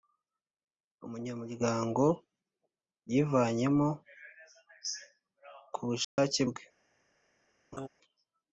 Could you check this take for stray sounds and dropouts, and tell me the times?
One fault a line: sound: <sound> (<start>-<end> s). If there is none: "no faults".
sound: dropout (6.0-6.2 s)
sound: laugh (7.7-7.9 s)